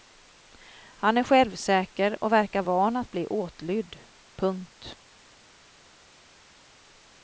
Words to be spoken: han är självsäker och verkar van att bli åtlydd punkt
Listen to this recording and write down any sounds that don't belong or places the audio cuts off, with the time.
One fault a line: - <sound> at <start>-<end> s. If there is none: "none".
none